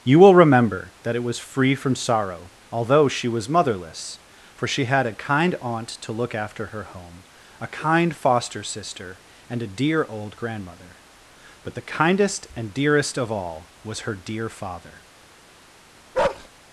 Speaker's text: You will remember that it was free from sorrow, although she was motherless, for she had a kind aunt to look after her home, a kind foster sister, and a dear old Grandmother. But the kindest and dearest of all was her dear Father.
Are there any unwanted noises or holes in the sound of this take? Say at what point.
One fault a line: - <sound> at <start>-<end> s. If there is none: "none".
- bark at 16.1-16.5 s